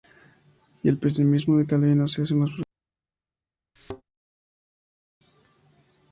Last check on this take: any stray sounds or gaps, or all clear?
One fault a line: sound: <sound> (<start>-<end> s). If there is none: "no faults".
sound: thud (3.8-4.0 s)